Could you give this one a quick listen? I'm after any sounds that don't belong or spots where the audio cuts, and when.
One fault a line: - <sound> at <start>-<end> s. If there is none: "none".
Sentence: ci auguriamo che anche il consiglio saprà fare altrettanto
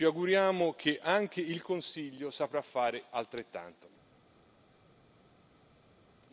none